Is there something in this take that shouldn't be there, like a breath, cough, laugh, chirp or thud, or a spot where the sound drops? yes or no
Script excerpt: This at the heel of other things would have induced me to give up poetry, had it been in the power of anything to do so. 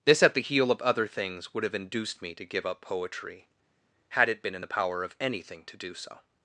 no